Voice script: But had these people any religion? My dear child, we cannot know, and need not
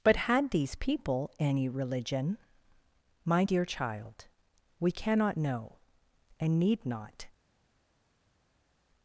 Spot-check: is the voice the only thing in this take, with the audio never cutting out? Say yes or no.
yes